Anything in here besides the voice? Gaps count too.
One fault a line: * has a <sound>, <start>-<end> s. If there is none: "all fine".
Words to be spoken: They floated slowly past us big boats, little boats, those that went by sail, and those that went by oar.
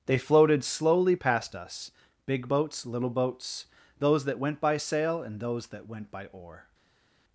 all fine